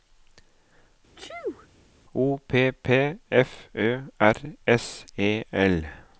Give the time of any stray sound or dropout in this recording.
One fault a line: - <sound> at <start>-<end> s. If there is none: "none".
- sneeze at 1.2-1.7 s